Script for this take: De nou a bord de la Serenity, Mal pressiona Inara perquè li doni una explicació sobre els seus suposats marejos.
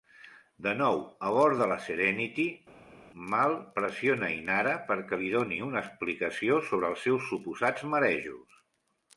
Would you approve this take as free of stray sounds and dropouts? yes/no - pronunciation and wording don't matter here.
yes